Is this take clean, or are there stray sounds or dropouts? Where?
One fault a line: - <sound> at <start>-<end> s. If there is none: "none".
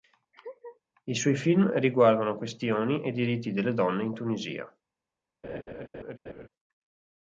- laugh at 0.3-0.8 s
- laugh at 5.4-6.5 s